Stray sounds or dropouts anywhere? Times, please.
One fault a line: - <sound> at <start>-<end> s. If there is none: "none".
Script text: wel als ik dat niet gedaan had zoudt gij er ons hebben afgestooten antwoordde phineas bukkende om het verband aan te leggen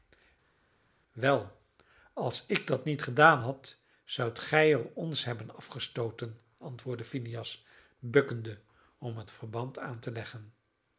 none